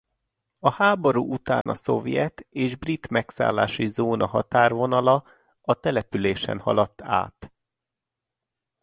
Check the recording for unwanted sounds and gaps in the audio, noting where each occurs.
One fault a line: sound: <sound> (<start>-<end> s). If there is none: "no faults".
sound: dropout (1.6-1.7 s)